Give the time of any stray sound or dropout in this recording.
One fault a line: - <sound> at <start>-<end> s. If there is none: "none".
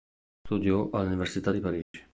- dropout at 1.8-1.9 s